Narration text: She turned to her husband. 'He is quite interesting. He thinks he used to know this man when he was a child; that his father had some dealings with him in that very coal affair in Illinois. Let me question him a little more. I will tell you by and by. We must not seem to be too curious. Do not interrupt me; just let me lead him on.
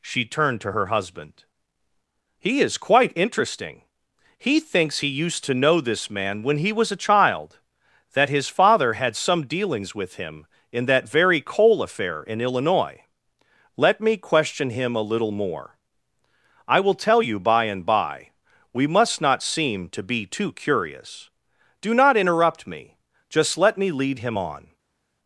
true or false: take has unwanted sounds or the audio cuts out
false